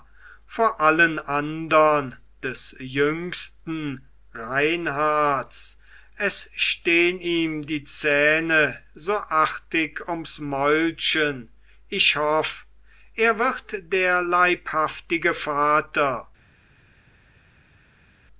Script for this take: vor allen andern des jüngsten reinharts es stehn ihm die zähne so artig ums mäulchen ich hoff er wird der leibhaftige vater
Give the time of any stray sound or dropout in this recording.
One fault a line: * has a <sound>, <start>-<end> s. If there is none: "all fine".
all fine